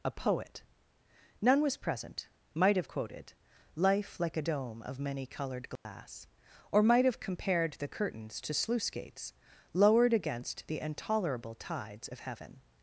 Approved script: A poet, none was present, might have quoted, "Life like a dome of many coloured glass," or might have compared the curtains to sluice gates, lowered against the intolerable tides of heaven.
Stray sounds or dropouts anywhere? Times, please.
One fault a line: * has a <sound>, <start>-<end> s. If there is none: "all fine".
* has a dropout, 5.8-5.9 s